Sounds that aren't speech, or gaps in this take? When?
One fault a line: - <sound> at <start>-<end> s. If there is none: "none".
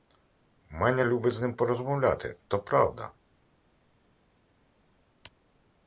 none